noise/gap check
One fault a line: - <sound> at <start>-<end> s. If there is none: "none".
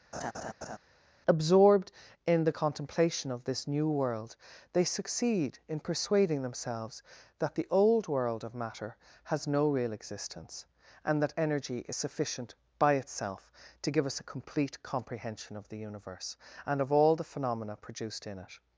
- laugh at 0.1-0.8 s